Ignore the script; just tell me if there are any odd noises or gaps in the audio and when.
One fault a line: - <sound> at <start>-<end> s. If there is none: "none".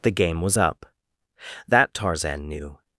none